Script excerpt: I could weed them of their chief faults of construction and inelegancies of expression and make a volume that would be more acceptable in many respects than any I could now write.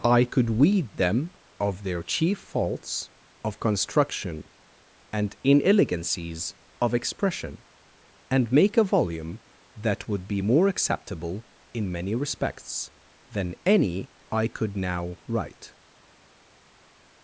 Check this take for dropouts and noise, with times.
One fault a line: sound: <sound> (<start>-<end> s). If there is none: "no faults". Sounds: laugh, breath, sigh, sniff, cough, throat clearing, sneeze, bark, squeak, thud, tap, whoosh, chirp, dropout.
no faults